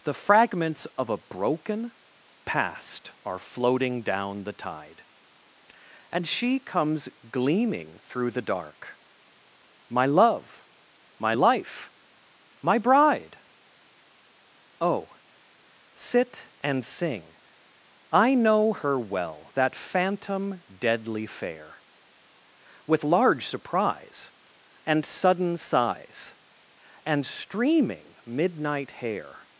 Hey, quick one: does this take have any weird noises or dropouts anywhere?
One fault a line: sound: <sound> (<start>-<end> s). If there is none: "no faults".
no faults